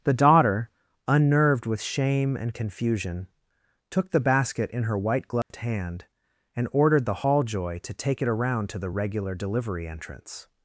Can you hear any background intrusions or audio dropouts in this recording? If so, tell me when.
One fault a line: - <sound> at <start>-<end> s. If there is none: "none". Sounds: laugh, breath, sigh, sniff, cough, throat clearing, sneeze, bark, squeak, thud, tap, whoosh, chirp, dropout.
- dropout at 5.4-5.5 s